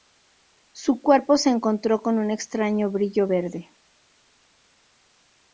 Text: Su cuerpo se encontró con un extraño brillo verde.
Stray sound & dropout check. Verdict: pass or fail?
pass